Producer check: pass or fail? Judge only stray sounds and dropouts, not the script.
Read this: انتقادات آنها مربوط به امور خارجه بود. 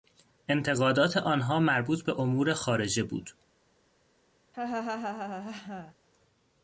fail